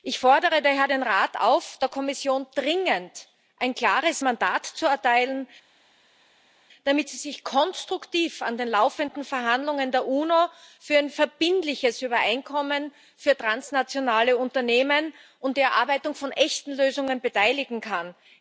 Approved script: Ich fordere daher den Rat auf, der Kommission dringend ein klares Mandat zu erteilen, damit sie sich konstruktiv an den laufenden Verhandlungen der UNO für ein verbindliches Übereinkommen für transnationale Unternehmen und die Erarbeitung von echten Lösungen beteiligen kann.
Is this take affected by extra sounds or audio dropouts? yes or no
no